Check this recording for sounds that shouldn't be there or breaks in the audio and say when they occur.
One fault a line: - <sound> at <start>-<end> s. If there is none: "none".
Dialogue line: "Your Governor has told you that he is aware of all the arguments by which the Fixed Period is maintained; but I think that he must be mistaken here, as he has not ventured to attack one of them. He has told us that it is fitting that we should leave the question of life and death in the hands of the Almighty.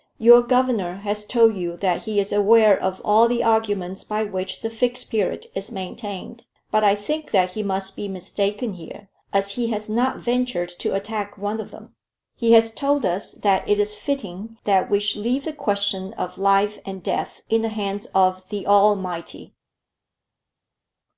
none